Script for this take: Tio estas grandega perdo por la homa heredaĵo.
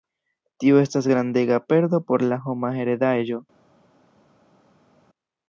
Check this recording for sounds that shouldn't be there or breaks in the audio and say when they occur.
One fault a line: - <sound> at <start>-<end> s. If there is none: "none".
none